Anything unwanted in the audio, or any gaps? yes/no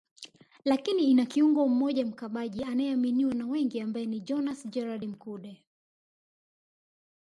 no